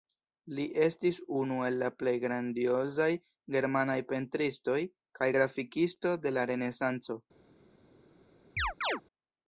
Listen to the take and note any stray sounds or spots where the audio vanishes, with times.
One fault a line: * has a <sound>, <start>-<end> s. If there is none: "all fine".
* has a chirp, 8.6-9.0 s